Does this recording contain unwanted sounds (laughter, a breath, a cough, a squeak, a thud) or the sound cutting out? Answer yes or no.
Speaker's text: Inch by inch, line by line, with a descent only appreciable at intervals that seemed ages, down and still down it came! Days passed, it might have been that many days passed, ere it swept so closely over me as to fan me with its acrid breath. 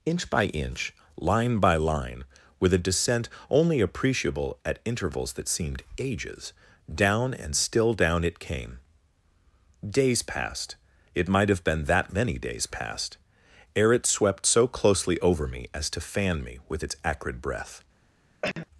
yes